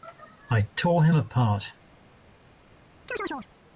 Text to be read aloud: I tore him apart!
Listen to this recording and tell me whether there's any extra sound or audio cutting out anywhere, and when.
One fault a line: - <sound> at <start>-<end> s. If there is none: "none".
- chirp at 3.1-3.5 s